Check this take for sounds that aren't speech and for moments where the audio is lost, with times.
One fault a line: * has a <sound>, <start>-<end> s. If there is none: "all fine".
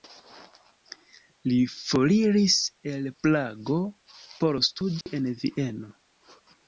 * has a dropout, 5.0-5.1 s